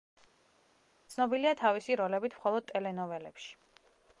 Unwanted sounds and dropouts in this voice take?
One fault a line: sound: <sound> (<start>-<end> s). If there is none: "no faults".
no faults